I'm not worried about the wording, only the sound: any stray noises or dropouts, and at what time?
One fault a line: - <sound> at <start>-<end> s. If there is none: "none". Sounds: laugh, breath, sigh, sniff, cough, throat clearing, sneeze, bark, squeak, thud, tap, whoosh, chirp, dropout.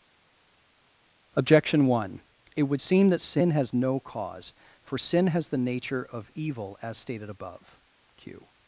none